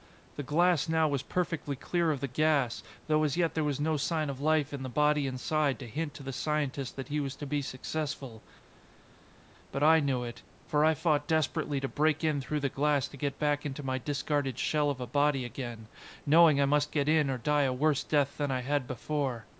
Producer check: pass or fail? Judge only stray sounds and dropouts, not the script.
pass